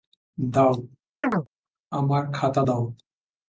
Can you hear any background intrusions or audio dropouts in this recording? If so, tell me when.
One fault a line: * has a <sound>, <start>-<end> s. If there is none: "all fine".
* has a chirp, 1.2-1.5 s